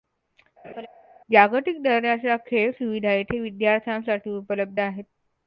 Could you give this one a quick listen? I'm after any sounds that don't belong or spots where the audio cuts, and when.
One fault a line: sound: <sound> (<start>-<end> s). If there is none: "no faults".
sound: laugh (0.6-0.9 s)